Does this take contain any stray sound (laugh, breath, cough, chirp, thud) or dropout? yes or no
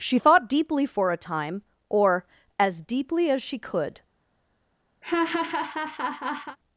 yes